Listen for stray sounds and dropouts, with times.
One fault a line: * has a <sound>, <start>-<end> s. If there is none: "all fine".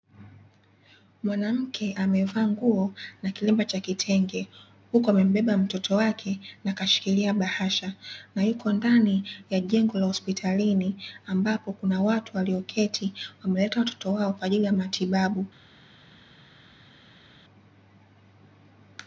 all fine